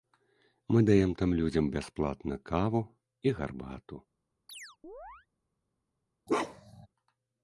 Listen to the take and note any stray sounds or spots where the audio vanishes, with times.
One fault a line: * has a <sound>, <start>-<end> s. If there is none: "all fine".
* has a chirp, 4.5-5.3 s
* has a bark, 6.3-6.9 s